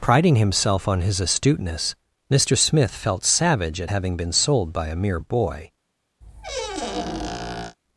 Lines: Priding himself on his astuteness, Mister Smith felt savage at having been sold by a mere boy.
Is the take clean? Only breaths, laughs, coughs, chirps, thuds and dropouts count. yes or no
no